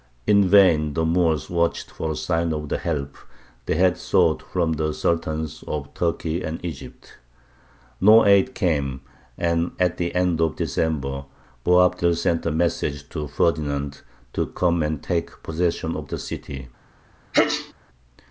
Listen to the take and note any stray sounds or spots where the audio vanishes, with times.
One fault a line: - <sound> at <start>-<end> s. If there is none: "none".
- sneeze at 17.3-17.7 s